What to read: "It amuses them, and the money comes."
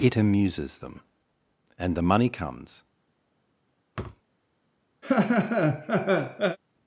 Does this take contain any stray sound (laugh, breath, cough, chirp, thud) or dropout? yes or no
yes